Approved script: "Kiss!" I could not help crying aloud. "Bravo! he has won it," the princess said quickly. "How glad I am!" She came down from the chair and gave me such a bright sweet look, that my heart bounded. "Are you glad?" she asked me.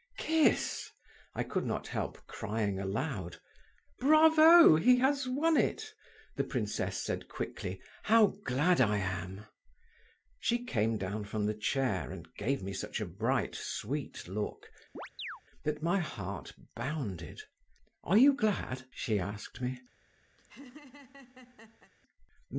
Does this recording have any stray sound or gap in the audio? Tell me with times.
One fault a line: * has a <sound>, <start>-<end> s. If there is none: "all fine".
* has a chirp, 14.9-15.4 s
* has a laugh, 20.4-21.9 s